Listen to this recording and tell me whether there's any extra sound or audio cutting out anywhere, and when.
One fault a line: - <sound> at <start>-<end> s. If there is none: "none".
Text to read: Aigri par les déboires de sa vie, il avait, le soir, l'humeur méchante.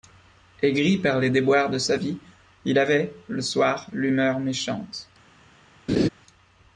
- laugh at 5.9-6.1 s